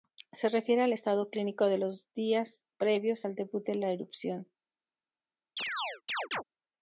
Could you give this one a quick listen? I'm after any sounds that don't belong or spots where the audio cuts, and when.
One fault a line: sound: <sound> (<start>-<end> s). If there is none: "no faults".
sound: chirp (5.6-6.4 s)